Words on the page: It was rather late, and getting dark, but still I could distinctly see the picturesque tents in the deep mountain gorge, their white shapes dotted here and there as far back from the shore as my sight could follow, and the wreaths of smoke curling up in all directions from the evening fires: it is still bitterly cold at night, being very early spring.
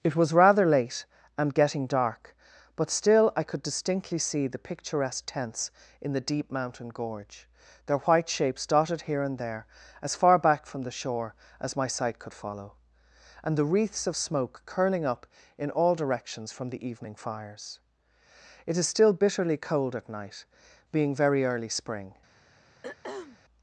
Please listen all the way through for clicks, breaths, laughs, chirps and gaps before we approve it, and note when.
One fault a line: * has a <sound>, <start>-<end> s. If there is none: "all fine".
* has a throat clearing, 22.8-23.4 s